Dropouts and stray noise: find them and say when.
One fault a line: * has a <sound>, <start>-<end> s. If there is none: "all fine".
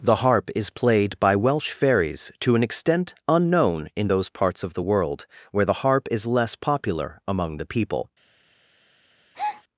* has a breath, 9.3-9.6 s